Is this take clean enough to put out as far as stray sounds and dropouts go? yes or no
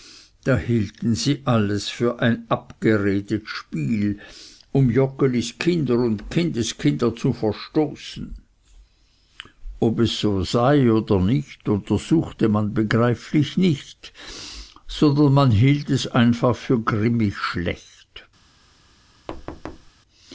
no